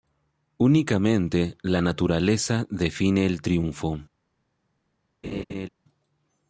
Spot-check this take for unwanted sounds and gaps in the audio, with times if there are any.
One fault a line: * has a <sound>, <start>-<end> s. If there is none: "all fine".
* has a laugh, 5.2-5.7 s